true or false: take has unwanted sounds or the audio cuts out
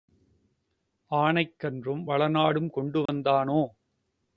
true